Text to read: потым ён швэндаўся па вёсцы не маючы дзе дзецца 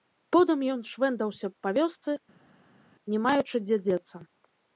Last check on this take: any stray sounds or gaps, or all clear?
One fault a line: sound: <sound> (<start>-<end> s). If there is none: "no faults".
no faults